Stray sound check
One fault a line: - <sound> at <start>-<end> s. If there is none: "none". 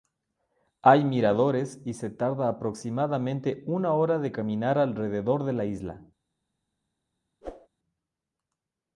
- whoosh at 7.4-7.7 s